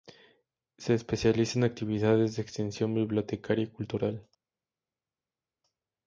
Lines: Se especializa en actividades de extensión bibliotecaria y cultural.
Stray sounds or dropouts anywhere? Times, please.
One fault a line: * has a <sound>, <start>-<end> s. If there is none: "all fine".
all fine